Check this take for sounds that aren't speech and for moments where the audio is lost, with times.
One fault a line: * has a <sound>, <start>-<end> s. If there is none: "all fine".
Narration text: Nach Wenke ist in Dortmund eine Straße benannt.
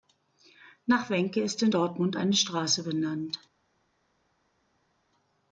all fine